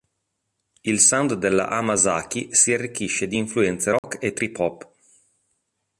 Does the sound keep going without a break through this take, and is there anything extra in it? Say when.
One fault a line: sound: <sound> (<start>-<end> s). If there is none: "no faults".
sound: dropout (4.0-4.0 s)